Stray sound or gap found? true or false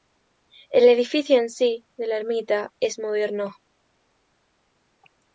false